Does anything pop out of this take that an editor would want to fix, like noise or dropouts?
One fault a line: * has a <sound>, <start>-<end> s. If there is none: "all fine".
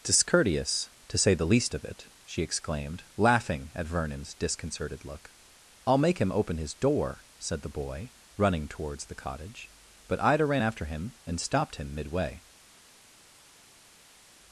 all fine